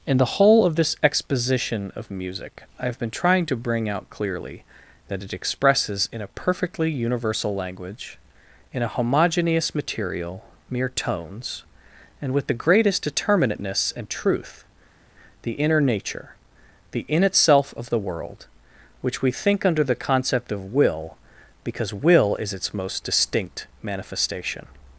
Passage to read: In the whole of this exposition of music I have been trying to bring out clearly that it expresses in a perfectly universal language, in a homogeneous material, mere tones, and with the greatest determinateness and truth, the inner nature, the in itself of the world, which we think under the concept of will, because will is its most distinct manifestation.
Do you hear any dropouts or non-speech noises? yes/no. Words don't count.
no